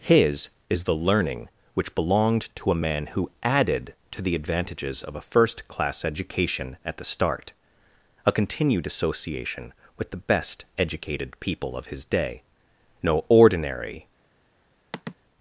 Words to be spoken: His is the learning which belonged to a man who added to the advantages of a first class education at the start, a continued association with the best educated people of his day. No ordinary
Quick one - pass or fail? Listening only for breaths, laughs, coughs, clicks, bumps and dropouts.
fail